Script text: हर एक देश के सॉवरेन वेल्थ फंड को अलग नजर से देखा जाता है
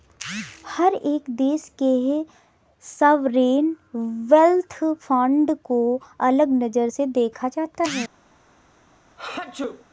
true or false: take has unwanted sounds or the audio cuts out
true